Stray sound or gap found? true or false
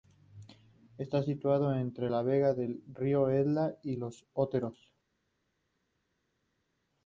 false